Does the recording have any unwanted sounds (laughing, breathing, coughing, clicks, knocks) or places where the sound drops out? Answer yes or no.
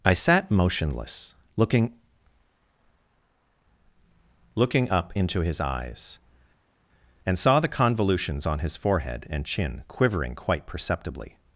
no